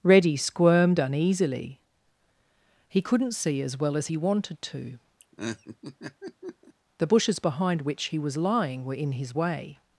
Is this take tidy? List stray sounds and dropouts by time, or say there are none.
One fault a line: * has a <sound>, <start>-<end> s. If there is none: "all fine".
* has a laugh, 5.2-6.7 s